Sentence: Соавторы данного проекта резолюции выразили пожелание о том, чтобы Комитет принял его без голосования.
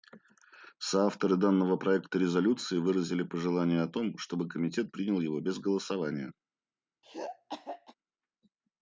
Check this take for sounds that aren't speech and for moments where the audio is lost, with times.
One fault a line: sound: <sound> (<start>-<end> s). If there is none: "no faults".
sound: throat clearing (7.0-7.9 s)